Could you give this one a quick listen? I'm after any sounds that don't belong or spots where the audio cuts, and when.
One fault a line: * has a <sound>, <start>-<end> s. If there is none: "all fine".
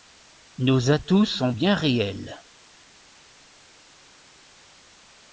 all fine